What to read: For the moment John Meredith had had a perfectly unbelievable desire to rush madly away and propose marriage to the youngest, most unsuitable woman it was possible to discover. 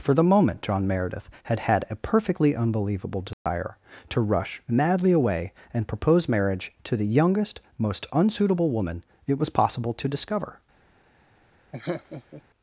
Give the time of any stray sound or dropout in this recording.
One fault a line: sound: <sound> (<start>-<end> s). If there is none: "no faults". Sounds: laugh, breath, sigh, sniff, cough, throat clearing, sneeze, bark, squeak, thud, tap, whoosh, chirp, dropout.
sound: dropout (3.3-3.5 s)
sound: laugh (11.7-12.4 s)